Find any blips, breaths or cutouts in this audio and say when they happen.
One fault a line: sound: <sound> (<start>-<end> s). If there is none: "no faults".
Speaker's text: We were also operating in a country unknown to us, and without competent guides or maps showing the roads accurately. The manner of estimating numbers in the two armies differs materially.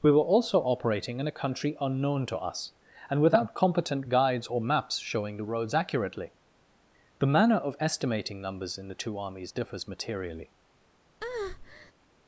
sound: breath (11.2-11.9 s)